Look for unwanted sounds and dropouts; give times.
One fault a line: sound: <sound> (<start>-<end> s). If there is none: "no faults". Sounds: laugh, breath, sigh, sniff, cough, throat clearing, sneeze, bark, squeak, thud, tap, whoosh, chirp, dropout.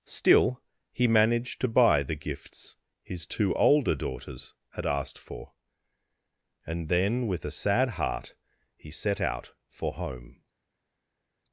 no faults